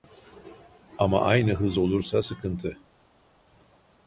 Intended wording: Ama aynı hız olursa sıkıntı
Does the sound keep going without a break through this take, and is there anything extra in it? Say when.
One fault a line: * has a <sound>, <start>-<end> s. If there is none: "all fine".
all fine